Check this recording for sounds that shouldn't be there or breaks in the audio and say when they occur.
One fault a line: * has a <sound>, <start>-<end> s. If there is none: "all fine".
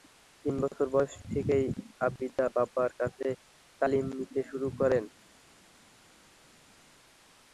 all fine